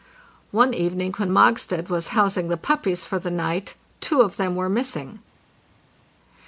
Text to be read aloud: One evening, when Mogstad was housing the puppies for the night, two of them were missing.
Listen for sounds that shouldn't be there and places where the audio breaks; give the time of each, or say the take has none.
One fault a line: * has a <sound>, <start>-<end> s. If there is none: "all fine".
all fine